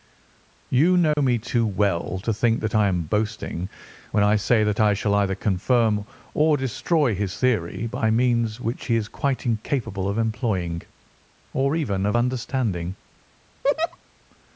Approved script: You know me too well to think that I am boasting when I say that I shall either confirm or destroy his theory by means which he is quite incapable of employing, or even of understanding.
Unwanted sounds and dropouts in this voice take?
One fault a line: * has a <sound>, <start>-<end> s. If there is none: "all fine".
* has a dropout, 1.1-1.2 s
* has a laugh, 13.6-14.0 s